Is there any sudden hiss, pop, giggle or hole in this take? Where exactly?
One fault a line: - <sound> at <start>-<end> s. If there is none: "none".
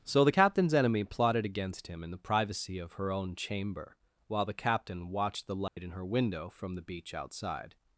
- dropout at 5.7-5.8 s